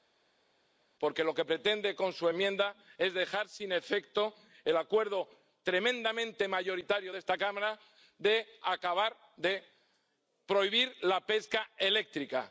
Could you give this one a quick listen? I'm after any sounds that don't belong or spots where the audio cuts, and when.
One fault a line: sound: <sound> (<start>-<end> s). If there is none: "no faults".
no faults